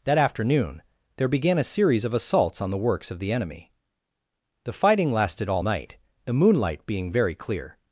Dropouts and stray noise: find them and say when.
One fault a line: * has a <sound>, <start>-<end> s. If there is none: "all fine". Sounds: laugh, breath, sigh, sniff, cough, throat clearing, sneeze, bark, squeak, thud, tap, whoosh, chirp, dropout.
all fine